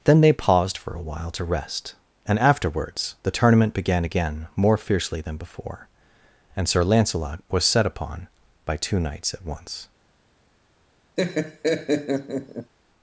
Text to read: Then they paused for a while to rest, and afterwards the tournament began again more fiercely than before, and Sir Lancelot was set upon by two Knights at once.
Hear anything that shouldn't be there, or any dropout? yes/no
yes